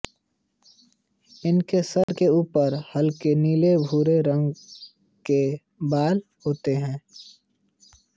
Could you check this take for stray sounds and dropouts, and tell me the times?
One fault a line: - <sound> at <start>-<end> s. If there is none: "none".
- dropout at 2.0-2.1 s